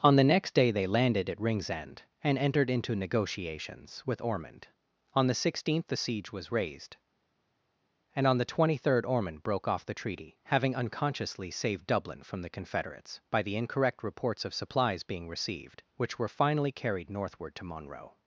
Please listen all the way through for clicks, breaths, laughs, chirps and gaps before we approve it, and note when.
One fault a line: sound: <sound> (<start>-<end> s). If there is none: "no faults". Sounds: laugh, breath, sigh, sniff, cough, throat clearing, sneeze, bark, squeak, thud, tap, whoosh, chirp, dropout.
no faults